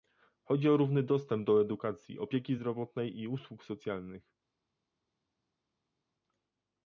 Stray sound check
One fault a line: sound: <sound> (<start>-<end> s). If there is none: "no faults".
no faults